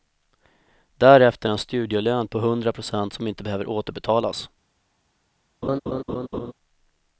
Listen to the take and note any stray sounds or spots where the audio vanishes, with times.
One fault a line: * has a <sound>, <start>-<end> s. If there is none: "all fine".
* has a laugh, 5.6-6.5 s